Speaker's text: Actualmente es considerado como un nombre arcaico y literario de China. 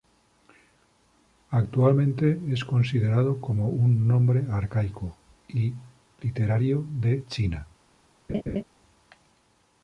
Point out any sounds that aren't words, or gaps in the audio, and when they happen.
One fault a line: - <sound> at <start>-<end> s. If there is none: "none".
- laugh at 8.3-8.6 s